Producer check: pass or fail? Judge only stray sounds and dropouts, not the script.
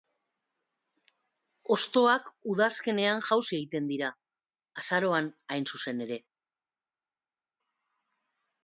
pass